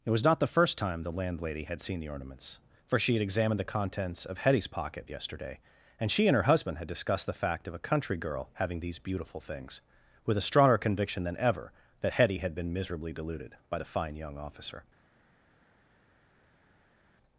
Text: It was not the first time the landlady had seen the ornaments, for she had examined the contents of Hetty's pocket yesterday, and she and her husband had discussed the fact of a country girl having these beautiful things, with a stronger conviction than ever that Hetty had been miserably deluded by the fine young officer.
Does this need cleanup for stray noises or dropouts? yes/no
no